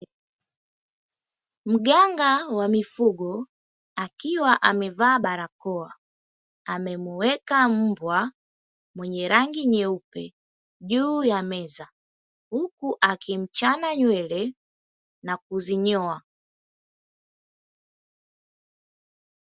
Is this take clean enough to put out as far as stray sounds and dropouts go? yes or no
yes